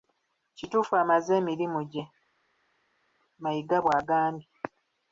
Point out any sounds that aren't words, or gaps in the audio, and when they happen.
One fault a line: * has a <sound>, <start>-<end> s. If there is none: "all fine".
all fine